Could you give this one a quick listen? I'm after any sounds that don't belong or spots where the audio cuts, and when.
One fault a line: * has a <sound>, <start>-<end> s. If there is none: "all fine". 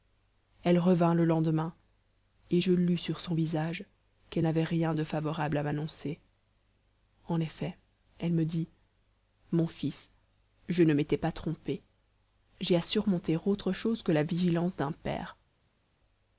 all fine